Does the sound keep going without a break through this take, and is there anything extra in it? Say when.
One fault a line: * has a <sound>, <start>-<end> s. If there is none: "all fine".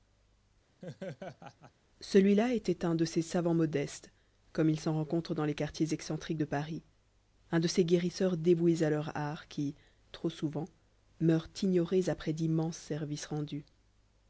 * has a laugh, 0.8-1.7 s